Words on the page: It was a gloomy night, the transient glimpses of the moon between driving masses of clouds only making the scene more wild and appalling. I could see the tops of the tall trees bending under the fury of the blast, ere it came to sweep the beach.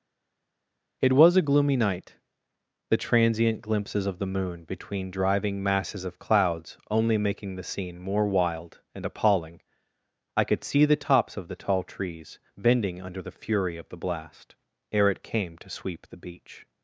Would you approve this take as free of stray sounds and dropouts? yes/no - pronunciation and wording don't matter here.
yes